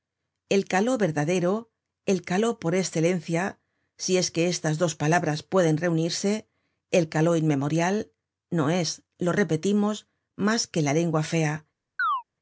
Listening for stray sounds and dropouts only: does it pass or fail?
fail